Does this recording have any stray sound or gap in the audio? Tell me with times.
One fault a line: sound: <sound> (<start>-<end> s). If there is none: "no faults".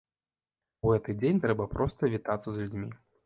no faults